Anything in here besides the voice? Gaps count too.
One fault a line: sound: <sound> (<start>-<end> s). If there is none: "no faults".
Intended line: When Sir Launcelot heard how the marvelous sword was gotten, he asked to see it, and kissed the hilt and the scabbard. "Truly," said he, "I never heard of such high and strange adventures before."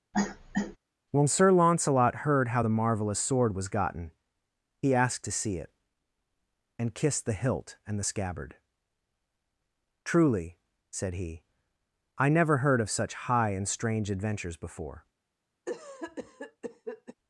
sound: cough (0.1-0.8 s)
sound: cough (15.7-17.1 s)